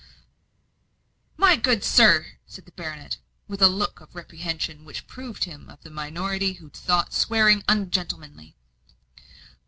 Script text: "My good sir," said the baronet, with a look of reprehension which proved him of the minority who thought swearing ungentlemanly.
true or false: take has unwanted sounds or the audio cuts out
false